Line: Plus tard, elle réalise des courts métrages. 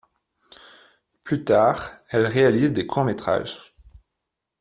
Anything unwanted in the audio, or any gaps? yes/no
no